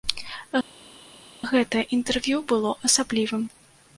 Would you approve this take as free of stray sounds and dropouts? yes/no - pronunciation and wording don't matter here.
yes